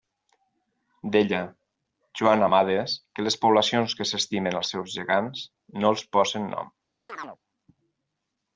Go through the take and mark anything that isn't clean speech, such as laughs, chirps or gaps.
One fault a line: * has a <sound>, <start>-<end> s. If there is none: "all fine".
* has a chirp, 7.1-7.4 s